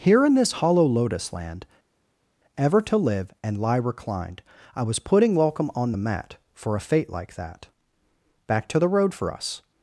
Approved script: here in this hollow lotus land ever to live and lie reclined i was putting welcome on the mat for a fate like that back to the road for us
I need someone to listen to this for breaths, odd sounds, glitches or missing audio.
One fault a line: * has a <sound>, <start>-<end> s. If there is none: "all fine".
all fine